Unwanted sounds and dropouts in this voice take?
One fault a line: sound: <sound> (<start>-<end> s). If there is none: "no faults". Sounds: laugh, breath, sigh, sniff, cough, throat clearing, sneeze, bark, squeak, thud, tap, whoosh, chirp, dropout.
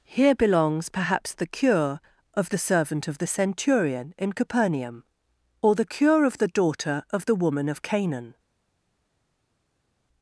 no faults